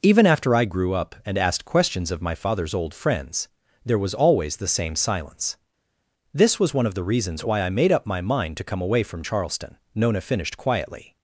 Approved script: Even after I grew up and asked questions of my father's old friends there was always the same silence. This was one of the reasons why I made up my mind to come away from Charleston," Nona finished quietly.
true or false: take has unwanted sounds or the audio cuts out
false